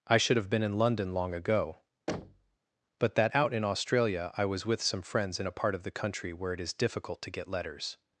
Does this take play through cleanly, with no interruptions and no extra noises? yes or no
no